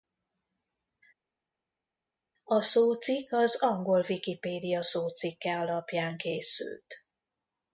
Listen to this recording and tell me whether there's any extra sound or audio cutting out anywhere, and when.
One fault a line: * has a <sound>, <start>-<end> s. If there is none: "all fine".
all fine